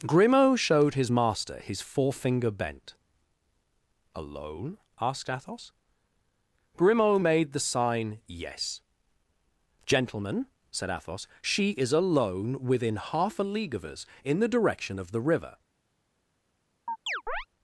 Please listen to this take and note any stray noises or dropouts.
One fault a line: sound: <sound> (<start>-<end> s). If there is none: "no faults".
sound: chirp (16.9-17.5 s)